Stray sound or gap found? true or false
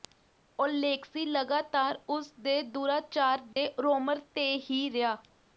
true